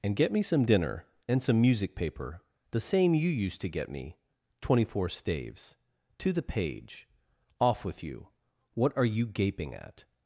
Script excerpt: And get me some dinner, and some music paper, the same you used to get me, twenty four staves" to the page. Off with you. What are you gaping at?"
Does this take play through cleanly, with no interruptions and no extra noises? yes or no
yes